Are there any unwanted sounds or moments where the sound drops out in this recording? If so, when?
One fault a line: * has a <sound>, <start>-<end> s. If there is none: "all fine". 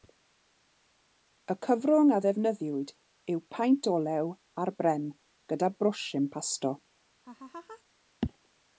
* has a laugh, 7.2-7.8 s